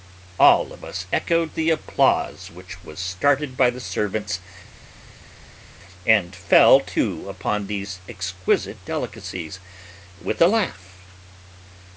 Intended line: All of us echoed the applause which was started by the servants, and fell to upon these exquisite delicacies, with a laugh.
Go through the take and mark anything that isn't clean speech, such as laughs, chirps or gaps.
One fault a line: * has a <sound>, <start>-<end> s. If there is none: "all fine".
all fine